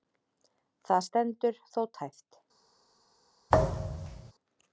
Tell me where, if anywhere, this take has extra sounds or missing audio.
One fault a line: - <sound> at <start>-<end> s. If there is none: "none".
- thud at 3.5-4.3 s